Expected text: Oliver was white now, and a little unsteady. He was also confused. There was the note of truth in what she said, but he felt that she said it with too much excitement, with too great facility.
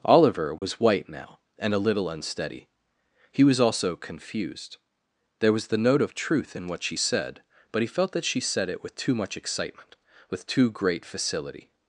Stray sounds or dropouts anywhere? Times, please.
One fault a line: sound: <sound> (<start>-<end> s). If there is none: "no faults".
sound: dropout (0.6-0.6 s)